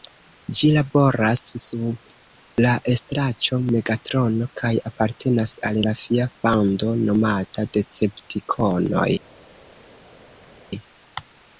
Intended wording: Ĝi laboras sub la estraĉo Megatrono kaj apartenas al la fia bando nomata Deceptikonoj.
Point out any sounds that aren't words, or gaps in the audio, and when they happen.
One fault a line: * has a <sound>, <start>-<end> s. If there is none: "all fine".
all fine